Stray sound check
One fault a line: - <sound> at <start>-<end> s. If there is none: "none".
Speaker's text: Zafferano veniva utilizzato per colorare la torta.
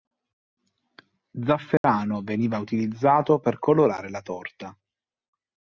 - dropout at 1.8-1.8 s